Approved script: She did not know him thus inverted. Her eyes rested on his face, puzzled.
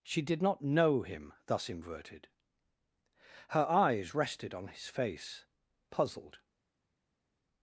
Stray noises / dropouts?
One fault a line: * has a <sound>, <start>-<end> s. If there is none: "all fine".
all fine